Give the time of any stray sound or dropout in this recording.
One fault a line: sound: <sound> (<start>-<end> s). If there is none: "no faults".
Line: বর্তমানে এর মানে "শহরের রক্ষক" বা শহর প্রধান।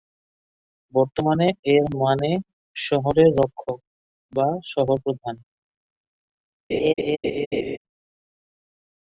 sound: laugh (6.7-7.8 s)